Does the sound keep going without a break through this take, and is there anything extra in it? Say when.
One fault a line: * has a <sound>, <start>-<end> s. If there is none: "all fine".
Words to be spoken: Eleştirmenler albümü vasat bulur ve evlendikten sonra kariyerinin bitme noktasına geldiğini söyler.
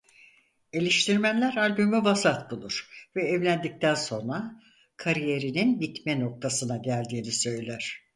all fine